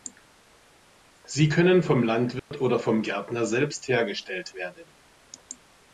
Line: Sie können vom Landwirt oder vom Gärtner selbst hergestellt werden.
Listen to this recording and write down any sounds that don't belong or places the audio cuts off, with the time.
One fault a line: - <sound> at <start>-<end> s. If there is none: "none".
- dropout at 2.4-2.5 s